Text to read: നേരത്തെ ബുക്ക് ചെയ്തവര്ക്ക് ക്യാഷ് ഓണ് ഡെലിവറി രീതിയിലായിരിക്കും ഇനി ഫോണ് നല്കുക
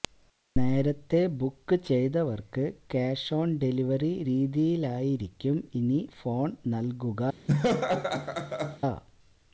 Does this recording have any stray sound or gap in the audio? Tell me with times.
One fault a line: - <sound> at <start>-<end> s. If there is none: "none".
- laugh at 7.5-8.8 s